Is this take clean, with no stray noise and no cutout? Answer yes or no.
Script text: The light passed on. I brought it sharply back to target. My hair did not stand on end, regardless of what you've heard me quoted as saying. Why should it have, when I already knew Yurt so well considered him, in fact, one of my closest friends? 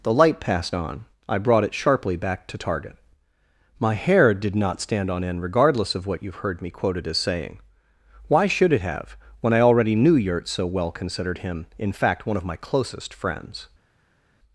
yes